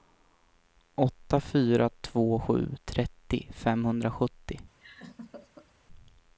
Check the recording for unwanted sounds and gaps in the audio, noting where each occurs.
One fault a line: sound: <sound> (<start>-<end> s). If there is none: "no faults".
sound: laugh (4.8-5.7 s)